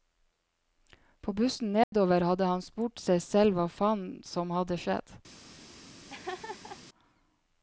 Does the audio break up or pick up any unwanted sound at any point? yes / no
yes